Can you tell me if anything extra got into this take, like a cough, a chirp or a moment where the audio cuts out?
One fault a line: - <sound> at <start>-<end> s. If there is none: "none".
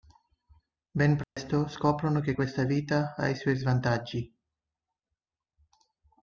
- dropout at 1.2-1.4 s